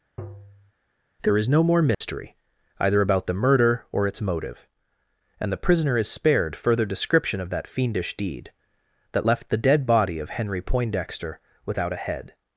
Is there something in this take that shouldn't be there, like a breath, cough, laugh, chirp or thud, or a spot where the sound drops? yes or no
yes